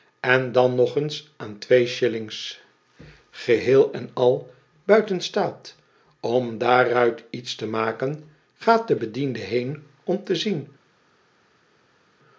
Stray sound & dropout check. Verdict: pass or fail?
pass